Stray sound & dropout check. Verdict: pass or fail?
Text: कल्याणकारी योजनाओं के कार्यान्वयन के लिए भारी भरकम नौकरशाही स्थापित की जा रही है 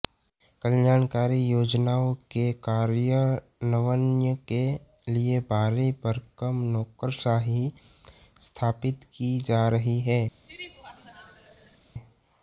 fail